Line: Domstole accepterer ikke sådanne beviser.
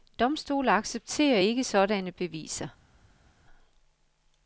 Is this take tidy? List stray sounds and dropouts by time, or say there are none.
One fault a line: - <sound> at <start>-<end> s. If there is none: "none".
none